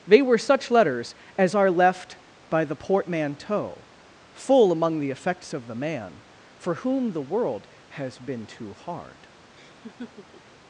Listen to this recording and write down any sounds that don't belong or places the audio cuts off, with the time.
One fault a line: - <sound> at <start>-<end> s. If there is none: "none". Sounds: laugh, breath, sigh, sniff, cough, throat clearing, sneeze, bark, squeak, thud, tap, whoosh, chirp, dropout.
- laugh at 9.5-10.6 s